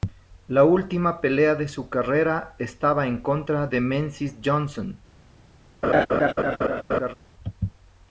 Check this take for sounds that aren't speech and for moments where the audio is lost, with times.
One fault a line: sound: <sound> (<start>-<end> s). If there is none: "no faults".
sound: laugh (5.8-7.1 s)